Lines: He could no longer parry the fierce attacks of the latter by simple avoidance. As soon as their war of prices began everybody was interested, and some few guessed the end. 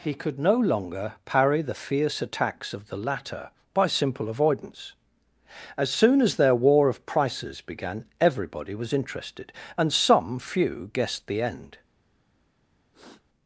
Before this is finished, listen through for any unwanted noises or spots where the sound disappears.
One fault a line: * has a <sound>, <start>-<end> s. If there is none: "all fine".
* has a sniff, 12.9-13.2 s